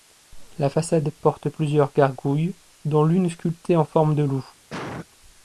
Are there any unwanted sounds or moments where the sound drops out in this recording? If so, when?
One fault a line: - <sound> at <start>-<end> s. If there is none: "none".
- cough at 4.7-5.1 s